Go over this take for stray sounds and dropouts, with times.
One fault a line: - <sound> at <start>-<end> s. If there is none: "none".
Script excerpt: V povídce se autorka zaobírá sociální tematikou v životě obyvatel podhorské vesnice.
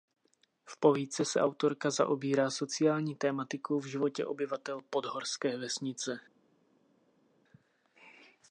none